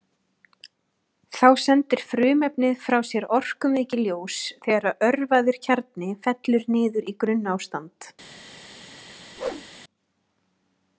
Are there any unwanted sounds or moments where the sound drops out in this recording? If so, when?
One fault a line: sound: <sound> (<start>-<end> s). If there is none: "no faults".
sound: whoosh (9.4-9.7 s)